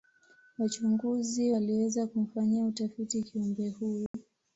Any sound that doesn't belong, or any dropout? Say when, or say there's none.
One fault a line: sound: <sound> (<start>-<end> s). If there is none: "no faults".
sound: dropout (4.1-4.1 s)